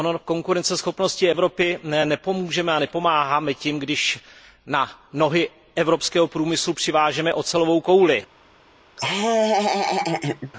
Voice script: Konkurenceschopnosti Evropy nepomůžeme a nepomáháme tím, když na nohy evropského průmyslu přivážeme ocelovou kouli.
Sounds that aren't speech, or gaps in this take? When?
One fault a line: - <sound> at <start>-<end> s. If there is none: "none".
- laugh at 9.0-10.5 s